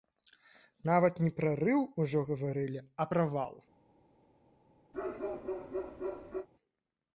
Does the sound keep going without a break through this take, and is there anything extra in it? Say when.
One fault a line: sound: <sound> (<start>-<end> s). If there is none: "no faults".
sound: bark (4.9-6.5 s)